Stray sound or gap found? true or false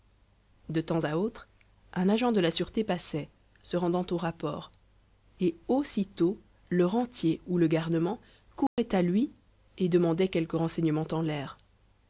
true